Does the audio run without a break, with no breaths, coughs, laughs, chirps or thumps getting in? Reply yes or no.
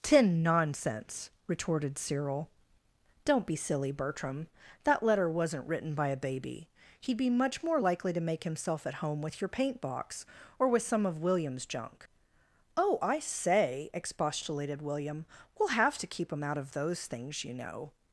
yes